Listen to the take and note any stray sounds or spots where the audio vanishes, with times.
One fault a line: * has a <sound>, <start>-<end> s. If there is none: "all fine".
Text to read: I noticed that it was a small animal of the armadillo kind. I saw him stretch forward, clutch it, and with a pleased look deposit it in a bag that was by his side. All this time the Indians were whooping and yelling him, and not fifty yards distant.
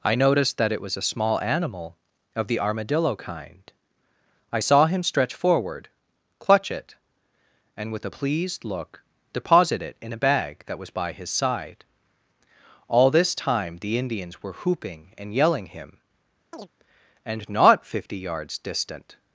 * has a chirp, 16.5-16.7 s